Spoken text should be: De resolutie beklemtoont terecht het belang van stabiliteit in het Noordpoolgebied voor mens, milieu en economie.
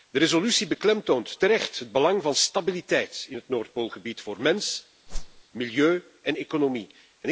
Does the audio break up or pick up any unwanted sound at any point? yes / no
yes